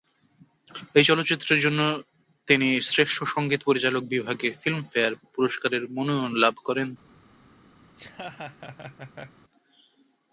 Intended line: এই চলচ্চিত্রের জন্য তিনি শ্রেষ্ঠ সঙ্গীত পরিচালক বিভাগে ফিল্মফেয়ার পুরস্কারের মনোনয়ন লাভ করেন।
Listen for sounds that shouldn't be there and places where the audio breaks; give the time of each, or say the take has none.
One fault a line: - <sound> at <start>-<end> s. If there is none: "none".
- laugh at 7.9-9.4 s